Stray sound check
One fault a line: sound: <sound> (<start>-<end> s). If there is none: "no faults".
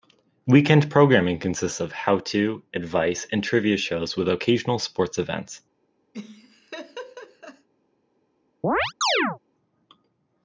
sound: laugh (6.1-7.7 s)
sound: chirp (8.6-9.4 s)